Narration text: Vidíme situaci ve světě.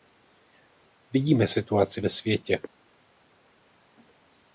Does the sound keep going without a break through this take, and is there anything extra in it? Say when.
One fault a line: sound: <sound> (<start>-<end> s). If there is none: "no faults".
no faults